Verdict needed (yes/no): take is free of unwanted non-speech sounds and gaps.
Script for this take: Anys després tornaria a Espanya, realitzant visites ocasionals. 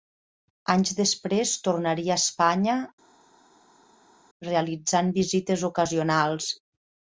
yes